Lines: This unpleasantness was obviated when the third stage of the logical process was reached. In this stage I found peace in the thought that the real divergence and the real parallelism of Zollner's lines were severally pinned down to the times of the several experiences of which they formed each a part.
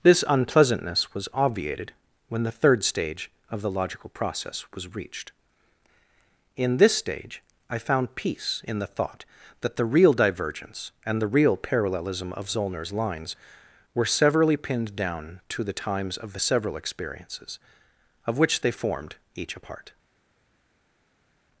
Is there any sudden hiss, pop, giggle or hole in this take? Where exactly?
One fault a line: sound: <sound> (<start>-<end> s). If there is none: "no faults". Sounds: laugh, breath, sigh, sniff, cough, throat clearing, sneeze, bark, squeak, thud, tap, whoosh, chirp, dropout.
no faults